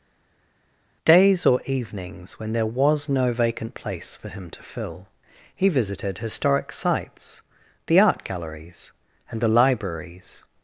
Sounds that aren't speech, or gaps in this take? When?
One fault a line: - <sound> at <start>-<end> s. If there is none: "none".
none